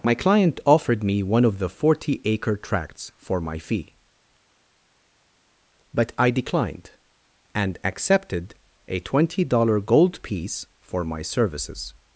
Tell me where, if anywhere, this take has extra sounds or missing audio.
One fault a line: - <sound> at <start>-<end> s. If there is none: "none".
none